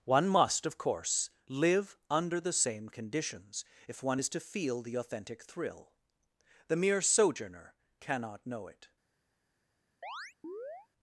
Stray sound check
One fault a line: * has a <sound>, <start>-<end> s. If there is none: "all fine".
* has a chirp, 10.0-10.9 s